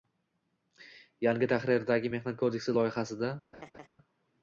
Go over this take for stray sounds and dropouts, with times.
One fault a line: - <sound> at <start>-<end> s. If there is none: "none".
- laugh at 3.5-3.9 s